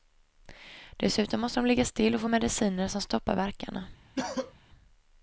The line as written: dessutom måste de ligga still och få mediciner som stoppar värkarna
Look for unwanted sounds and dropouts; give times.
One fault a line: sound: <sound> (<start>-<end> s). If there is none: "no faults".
sound: cough (4.2-4.5 s)